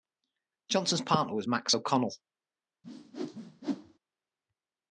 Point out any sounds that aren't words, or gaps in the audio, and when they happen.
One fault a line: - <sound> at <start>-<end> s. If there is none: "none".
- whoosh at 2.8-4.0 s